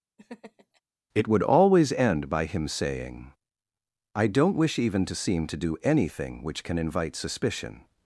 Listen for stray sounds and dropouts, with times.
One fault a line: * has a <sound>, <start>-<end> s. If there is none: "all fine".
* has a laugh, 0.2-0.8 s